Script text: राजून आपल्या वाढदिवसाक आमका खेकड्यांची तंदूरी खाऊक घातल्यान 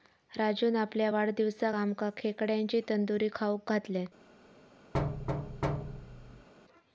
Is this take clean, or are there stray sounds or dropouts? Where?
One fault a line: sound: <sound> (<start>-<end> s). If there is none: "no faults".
sound: thud (4.9-6.5 s)